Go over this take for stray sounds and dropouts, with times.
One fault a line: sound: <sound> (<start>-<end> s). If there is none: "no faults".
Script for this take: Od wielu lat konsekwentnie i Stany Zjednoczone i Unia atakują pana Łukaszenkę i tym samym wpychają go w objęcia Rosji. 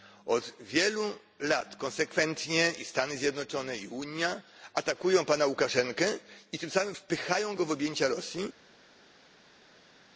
no faults